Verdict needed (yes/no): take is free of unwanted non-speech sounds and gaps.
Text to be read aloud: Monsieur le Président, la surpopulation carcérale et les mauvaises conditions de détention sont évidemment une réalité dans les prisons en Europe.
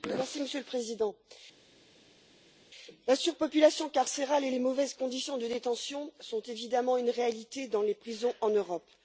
yes